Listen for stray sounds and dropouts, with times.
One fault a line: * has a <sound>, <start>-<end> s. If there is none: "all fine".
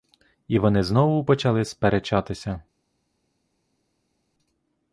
all fine